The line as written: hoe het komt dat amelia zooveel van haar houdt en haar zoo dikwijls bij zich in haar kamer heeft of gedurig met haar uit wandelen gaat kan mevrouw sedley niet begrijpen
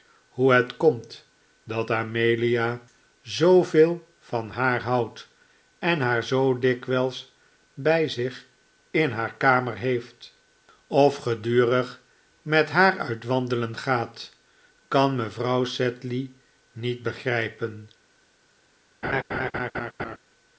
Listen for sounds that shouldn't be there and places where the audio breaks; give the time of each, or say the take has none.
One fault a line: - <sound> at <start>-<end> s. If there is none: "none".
- laugh at 19.0-20.2 s